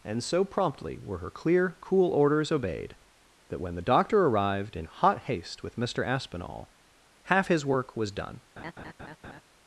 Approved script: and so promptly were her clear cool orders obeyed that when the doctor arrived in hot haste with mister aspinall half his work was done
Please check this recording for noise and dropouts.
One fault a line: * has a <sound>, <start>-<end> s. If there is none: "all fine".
* has a laugh, 8.6-9.4 s